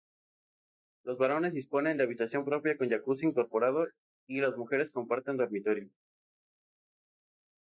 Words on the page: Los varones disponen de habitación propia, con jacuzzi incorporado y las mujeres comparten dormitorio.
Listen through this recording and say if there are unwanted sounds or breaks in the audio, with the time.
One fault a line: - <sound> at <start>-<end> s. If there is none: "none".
none